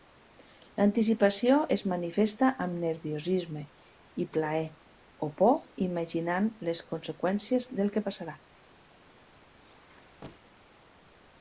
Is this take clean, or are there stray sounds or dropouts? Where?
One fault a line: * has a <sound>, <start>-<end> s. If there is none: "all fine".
* has a squeak, 9.5-10.6 s